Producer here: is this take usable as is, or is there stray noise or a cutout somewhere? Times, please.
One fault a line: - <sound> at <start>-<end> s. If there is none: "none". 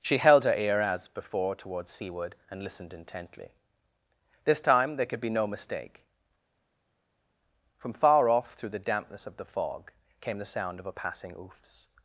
none